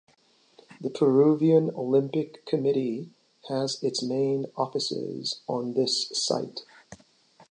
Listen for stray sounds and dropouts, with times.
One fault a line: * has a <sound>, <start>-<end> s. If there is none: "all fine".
all fine